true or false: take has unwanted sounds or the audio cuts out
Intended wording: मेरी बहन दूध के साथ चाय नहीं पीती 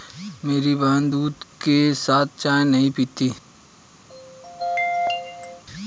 true